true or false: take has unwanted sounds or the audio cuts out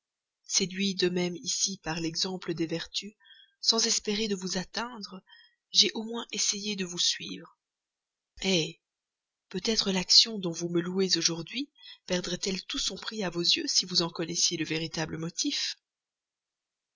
false